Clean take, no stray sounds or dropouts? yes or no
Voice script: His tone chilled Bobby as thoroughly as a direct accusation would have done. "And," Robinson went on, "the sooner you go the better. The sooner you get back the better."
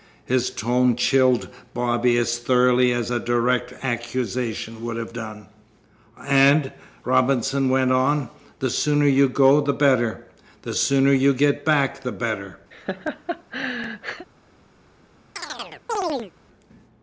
no